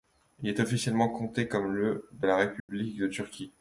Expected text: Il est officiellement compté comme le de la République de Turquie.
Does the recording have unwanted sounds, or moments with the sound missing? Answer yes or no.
yes